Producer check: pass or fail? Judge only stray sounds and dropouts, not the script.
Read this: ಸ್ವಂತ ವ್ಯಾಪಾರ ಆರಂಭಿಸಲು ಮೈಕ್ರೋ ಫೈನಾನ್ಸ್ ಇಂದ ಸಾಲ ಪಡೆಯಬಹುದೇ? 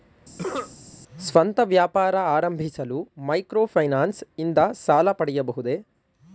fail